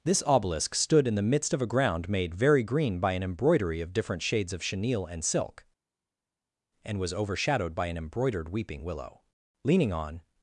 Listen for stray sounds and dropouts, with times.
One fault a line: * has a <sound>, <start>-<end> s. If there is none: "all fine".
all fine